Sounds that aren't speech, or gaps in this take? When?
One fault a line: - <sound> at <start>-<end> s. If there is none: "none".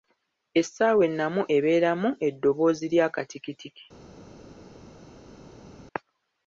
none